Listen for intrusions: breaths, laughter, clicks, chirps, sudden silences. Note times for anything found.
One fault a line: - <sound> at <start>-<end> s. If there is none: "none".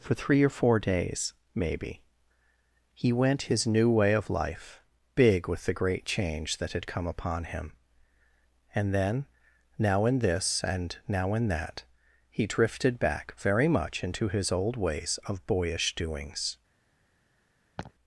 - laugh at 17.8-17.9 s